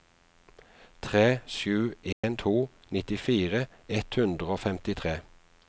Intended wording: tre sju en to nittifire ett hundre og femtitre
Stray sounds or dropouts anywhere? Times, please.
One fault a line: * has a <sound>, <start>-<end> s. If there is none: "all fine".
* has a dropout, 2.1-2.2 s